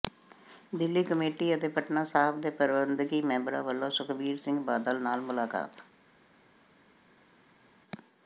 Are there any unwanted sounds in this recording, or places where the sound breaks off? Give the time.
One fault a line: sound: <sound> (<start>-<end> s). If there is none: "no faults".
no faults